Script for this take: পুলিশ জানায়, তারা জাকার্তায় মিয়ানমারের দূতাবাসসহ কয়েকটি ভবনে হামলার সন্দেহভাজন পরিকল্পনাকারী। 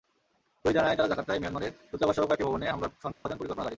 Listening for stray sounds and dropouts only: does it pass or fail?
fail